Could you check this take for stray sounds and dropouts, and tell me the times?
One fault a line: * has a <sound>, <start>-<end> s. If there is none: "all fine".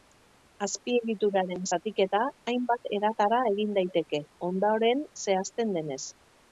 all fine